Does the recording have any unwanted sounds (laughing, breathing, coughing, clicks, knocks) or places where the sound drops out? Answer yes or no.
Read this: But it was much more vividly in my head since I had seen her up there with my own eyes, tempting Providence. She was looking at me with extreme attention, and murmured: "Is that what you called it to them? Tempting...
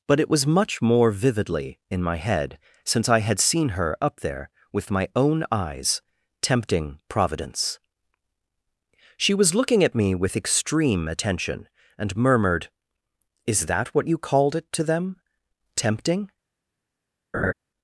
yes